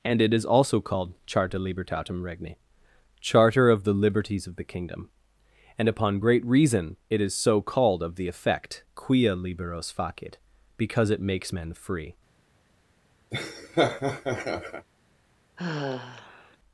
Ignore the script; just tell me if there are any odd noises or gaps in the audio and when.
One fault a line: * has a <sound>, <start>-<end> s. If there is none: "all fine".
* has a laugh, 13.3-14.9 s
* has a sigh, 15.6-16.6 s